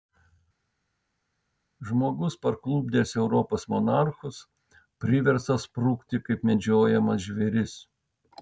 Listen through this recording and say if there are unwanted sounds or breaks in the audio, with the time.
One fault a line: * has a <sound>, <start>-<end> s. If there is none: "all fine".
all fine